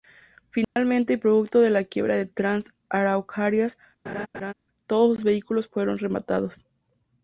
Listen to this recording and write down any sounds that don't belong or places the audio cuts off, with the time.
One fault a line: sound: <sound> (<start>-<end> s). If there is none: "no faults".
sound: dropout (0.6-0.8 s)
sound: laugh (4.1-4.5 s)